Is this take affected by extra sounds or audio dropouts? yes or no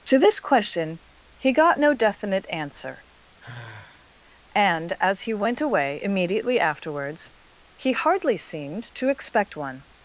yes